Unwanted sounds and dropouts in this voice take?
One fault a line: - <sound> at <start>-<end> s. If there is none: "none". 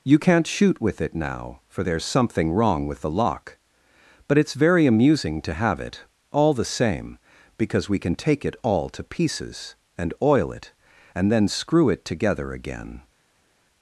none